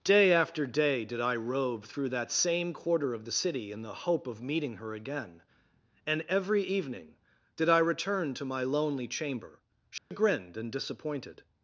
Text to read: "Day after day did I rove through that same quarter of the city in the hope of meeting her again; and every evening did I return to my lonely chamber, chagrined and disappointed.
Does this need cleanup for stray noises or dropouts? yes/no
yes